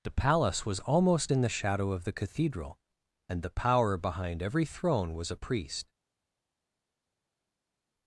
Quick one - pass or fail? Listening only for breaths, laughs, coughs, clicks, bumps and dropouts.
pass